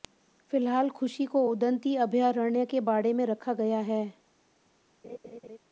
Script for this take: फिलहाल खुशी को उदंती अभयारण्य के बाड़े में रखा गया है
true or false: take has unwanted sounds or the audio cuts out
true